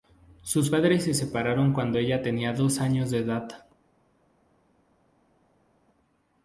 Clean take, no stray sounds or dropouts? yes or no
yes